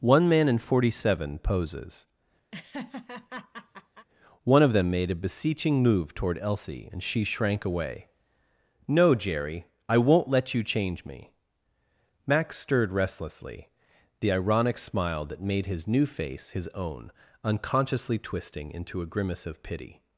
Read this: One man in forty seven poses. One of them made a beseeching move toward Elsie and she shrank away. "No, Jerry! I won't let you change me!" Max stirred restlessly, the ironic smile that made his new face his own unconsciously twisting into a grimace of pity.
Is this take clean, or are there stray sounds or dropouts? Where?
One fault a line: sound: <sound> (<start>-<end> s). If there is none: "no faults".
sound: laugh (2.5-4.1 s)